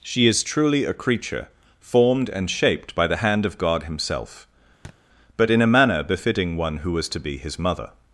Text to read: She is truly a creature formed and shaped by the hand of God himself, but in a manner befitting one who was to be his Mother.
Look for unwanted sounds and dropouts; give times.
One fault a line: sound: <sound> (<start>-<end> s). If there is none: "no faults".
sound: thud (4.8-5.0 s)